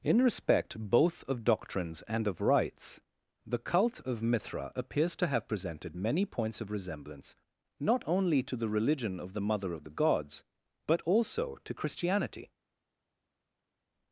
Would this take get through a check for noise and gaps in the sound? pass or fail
pass